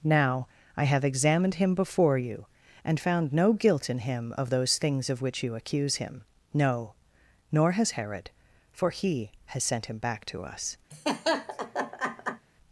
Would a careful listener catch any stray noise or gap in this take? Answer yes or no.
yes